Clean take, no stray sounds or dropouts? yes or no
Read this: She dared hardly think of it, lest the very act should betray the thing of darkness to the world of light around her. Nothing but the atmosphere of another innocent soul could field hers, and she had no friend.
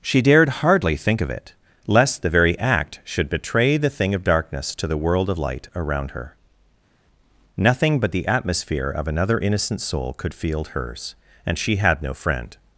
yes